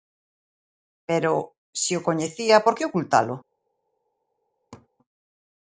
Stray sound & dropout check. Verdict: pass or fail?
fail